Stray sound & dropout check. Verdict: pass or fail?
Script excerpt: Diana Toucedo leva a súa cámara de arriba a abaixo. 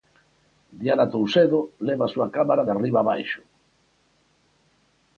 pass